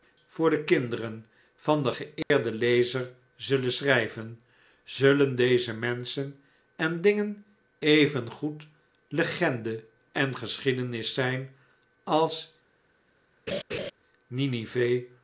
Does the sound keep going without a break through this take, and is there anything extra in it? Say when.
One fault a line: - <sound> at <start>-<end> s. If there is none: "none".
- dropout at 2.2-2.3 s
- laugh at 13.5-13.9 s